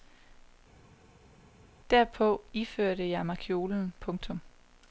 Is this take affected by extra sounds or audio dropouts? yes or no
no